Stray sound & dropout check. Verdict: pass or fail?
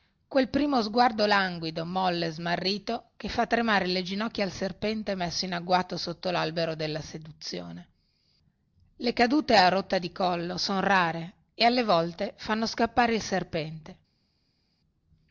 pass